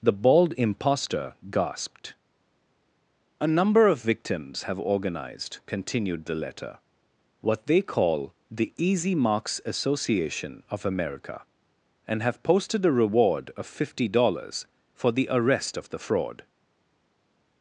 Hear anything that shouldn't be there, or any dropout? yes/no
no